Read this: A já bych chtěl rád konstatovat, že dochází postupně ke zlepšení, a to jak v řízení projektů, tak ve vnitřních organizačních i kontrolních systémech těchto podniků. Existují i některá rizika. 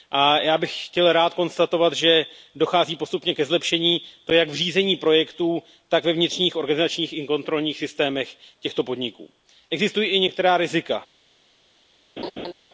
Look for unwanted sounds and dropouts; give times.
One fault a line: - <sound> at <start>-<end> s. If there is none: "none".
- laugh at 12.2-12.5 s